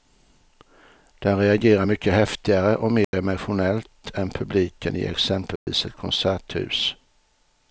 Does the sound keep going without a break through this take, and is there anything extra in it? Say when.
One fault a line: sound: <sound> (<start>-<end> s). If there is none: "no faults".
sound: dropout (3.0-3.1 s)
sound: dropout (5.6-5.7 s)